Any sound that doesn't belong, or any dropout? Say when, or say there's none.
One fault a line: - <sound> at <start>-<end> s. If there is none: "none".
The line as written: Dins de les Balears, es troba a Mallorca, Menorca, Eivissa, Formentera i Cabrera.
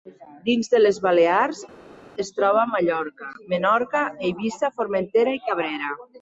none